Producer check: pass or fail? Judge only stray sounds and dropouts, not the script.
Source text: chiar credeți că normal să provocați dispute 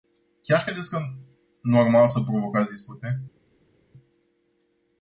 pass